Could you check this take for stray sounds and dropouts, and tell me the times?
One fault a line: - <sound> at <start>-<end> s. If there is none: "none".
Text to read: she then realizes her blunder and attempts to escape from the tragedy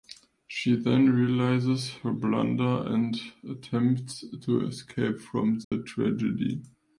- dropout at 5.6-5.7 s